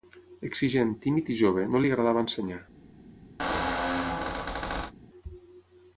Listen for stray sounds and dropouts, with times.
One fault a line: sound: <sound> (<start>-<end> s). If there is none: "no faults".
sound: squeak (3.4-4.9 s)